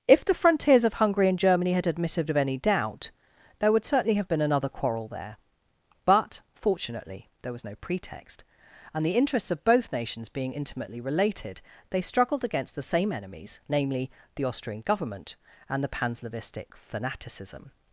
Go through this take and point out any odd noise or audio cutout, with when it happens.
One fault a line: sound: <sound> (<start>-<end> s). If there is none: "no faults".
no faults